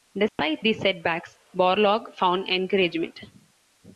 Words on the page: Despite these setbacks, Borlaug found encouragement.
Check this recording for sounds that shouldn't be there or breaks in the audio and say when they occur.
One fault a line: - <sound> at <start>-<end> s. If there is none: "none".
- dropout at 0.3-0.4 s